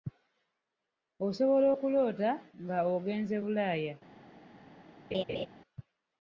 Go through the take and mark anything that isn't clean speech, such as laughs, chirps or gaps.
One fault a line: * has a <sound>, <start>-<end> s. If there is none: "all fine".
* has a laugh, 5.1-5.5 s